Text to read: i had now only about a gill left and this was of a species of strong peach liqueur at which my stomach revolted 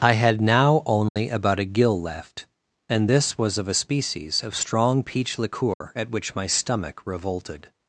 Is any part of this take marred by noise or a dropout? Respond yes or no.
yes